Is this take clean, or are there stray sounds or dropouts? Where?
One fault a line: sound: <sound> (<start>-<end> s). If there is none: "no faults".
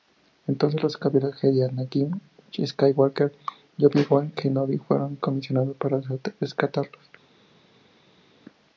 no faults